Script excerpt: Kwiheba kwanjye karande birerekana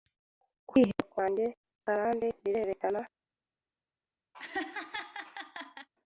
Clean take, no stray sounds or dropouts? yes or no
no